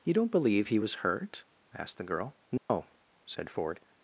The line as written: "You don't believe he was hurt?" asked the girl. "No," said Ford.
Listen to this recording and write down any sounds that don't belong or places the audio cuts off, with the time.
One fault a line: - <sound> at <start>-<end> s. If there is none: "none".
- dropout at 2.6-2.7 s